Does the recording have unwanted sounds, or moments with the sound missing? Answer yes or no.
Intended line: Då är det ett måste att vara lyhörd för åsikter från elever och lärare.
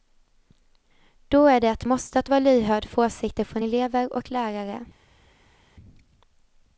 no